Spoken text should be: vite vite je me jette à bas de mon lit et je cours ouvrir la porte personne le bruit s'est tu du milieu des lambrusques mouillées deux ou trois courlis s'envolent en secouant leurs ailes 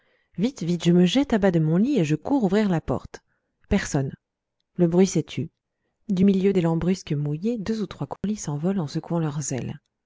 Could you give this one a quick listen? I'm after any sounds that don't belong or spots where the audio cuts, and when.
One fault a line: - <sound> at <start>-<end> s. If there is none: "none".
- dropout at 8.2-8.2 s